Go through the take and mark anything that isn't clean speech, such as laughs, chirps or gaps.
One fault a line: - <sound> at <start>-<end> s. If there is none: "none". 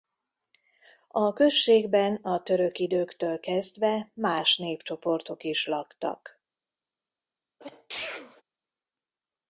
- sneeze at 7.6-8.4 s